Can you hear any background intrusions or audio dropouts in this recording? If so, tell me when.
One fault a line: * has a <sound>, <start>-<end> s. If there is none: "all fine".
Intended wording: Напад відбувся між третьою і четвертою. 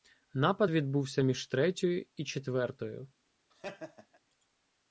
* has a laugh, 3.5-4.2 s